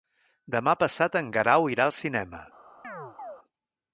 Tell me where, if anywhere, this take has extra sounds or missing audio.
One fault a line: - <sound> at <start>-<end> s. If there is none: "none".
- chirp at 2.8-3.4 s